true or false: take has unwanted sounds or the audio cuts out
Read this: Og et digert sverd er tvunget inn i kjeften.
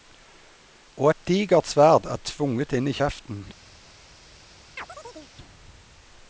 true